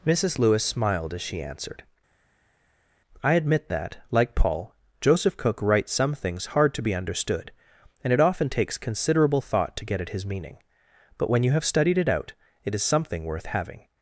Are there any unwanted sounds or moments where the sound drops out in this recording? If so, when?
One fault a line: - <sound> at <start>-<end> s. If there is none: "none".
none